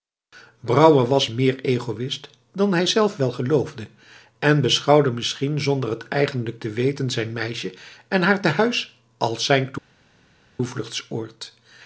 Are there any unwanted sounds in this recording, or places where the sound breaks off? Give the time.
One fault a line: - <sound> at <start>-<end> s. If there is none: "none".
none